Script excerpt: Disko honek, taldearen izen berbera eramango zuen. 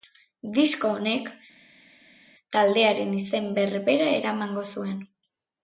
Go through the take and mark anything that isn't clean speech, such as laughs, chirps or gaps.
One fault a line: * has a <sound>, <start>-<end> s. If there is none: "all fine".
all fine